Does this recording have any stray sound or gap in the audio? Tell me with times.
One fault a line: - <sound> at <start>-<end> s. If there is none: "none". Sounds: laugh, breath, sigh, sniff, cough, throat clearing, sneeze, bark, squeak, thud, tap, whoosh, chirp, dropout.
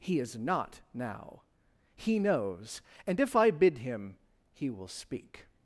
none